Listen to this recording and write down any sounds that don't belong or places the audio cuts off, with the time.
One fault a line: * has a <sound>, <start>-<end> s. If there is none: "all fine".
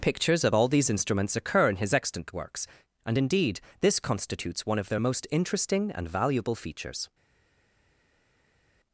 all fine